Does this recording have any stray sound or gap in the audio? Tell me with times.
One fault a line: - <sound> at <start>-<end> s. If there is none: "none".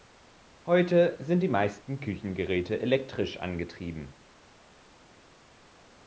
none